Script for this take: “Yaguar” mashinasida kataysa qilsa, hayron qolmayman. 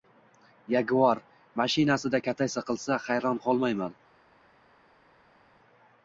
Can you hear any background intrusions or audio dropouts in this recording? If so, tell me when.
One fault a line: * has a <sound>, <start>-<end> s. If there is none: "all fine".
all fine